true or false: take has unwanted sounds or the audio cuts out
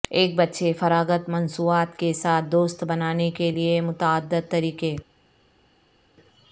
false